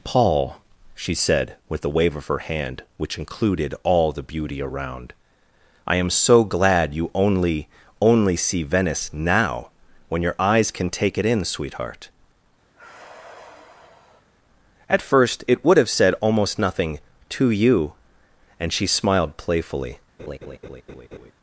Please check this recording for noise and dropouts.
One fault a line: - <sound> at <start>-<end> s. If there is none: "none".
- sigh at 12.7-14.3 s
- laugh at 20.2-21.3 s